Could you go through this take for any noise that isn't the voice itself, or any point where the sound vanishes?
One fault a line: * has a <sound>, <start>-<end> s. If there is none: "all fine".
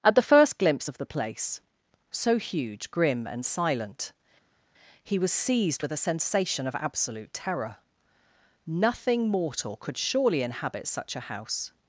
all fine